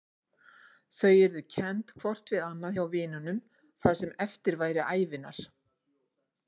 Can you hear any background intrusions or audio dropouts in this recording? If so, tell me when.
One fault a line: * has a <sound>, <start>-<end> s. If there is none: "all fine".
all fine